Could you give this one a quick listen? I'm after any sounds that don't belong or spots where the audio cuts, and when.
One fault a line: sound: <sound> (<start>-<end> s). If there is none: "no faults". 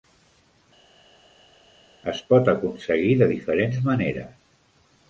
no faults